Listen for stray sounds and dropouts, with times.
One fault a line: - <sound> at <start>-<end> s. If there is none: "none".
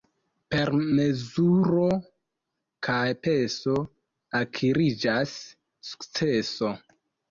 none